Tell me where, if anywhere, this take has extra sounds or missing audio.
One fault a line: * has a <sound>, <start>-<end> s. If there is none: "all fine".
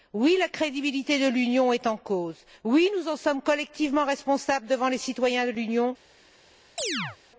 * has a chirp, 6.8-7.2 s